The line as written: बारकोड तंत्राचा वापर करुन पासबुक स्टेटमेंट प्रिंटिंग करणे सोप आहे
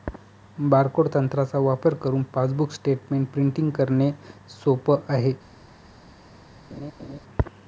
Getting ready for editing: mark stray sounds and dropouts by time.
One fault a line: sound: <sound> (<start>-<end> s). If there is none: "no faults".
sound: laugh (6.7-7.2 s)